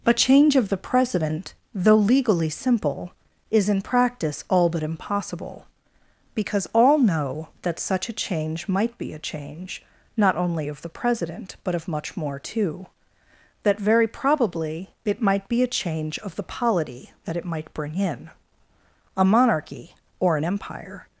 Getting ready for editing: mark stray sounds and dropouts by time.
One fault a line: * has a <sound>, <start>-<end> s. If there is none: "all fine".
all fine